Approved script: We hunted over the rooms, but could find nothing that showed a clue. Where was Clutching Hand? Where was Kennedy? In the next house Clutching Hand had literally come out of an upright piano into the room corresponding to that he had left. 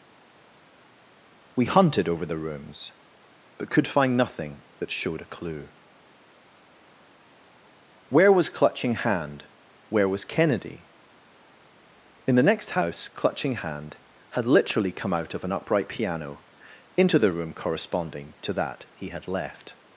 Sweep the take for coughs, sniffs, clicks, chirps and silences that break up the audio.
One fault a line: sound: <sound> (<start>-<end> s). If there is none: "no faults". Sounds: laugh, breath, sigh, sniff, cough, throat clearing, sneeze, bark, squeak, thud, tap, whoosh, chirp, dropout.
no faults